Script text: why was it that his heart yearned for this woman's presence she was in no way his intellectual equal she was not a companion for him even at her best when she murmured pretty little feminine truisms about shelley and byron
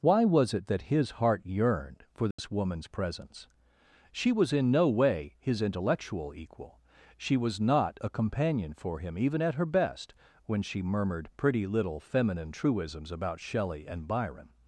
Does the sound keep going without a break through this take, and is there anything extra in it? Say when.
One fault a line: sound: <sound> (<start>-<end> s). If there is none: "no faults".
sound: dropout (2.3-2.4 s)